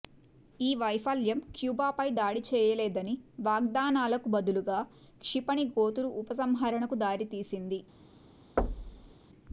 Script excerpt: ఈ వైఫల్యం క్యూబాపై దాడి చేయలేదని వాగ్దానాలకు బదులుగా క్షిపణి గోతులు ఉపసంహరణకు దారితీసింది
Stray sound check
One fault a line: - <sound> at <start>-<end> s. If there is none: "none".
- thud at 8.6-9.1 s